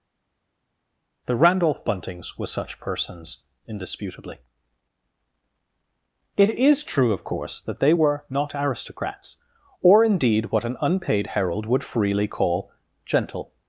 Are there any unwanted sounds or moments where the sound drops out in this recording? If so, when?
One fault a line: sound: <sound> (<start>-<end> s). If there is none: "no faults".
no faults